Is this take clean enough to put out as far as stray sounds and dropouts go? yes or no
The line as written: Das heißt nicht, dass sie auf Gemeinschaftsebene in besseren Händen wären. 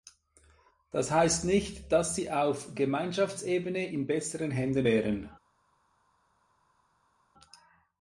yes